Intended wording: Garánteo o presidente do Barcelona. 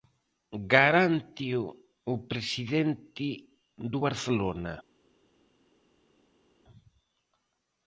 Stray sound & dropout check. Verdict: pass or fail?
pass